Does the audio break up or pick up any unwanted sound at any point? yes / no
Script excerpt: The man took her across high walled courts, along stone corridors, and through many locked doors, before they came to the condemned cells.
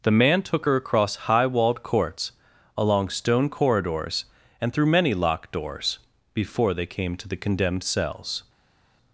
no